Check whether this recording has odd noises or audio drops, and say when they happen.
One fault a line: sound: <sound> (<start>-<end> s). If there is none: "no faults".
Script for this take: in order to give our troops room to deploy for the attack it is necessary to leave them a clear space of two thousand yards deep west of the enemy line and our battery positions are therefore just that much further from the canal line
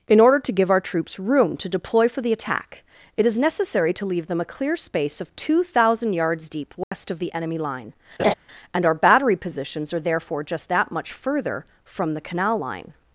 sound: dropout (6.8-6.9 s)
sound: laugh (8.2-8.3 s)